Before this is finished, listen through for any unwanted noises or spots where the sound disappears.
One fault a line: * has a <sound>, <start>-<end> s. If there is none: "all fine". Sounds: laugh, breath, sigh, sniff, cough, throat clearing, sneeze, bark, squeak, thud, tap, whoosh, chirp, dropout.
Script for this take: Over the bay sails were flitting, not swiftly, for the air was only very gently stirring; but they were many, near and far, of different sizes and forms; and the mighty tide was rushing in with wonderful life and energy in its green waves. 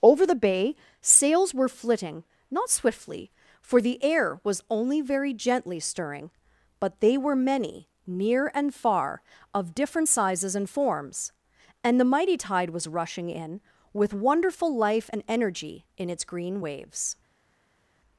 all fine